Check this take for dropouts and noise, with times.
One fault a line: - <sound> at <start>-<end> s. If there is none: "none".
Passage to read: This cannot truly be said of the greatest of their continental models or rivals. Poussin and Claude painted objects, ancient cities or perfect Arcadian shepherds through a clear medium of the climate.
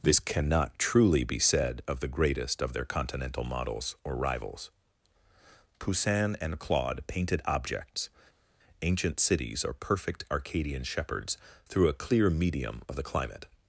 none